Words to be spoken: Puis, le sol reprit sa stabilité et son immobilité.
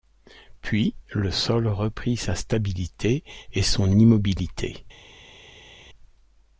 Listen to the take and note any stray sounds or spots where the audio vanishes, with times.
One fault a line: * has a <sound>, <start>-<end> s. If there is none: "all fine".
all fine